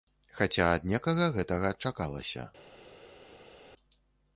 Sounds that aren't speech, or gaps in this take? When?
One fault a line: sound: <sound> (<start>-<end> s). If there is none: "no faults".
no faults